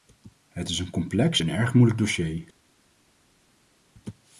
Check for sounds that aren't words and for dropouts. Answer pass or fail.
pass